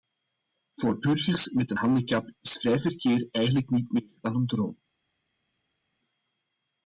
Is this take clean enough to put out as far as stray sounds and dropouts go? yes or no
yes